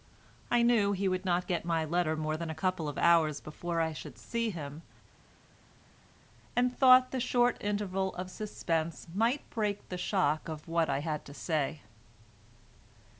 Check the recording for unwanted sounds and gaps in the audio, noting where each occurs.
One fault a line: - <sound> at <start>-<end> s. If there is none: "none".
none